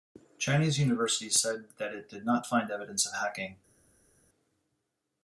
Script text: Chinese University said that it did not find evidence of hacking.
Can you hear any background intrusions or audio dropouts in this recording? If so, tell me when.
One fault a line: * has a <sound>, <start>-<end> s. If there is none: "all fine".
all fine